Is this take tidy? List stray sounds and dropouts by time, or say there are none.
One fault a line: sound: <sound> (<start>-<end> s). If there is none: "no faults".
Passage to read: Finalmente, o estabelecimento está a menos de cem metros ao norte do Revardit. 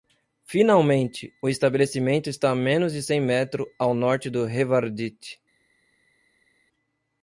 no faults